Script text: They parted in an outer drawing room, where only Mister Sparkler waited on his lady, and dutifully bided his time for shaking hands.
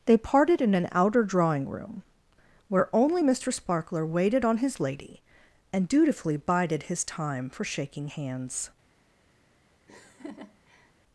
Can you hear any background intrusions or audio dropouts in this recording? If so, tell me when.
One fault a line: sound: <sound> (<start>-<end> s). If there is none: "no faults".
sound: laugh (9.9-10.9 s)